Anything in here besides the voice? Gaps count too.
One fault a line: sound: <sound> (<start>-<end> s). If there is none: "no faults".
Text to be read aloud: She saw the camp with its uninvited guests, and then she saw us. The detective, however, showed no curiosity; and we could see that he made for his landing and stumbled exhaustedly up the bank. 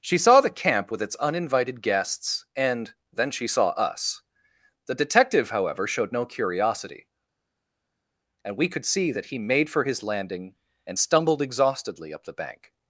no faults